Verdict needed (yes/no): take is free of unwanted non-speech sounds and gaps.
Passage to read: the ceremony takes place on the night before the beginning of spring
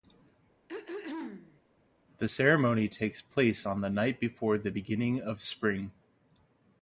no